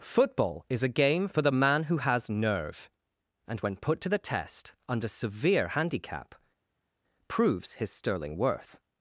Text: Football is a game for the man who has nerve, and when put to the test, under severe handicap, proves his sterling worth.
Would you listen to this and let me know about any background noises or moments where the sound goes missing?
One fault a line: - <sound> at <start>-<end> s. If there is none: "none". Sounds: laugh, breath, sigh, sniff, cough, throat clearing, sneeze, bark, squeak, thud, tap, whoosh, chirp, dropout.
none